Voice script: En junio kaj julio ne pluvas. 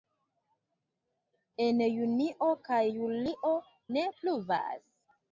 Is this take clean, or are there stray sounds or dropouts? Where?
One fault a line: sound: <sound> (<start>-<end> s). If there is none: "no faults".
no faults